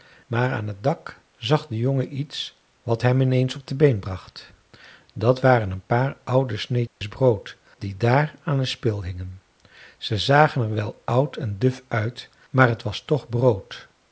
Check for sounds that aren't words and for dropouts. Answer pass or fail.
fail